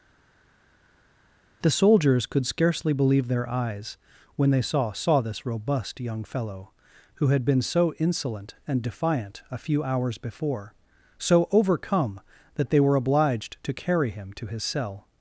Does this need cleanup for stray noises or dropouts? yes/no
no